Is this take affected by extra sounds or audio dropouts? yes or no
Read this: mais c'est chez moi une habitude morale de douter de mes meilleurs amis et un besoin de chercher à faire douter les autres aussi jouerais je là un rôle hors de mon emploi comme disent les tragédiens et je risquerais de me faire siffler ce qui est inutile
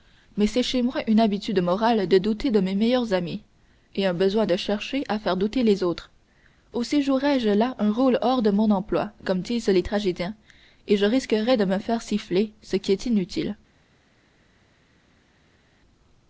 no